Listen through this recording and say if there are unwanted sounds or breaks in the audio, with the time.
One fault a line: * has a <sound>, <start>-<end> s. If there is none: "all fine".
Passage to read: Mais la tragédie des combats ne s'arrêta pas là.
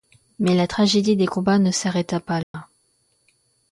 * has a dropout, 2.4-2.5 s